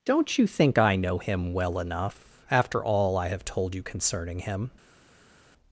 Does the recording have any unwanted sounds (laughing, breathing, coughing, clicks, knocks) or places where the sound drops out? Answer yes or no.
no